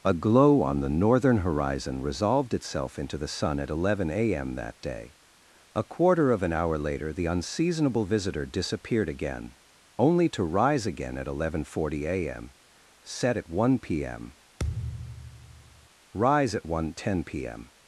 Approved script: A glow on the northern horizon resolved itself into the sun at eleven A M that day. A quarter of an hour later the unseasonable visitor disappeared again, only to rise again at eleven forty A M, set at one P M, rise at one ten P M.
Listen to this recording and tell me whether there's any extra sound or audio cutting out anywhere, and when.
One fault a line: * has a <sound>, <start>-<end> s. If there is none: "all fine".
* has a thud, 14.6-15.9 s